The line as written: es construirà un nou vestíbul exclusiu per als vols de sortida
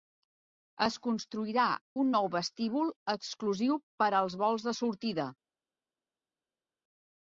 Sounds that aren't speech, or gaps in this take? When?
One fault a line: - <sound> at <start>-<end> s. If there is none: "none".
none